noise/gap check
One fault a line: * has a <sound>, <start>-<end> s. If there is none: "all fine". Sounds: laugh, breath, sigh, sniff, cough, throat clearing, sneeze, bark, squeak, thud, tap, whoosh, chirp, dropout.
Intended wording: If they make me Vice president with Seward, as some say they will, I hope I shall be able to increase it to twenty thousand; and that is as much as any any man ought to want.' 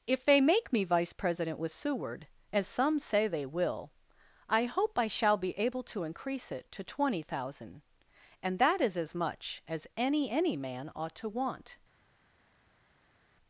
all fine